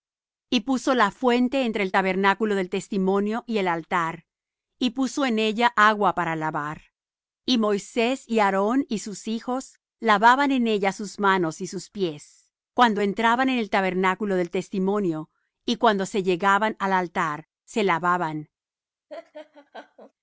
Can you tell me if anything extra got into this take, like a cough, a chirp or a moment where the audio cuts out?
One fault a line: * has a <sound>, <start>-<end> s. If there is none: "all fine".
* has a laugh, 19.1-20.1 s